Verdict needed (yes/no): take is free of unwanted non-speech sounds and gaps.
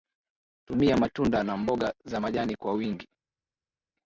yes